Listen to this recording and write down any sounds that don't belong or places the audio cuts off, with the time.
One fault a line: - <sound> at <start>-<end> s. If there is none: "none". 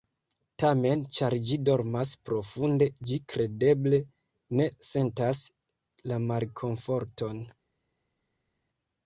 none